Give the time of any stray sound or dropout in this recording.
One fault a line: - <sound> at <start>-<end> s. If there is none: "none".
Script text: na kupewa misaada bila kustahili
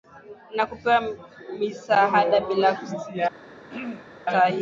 - throat clearing at 3.7-4.1 s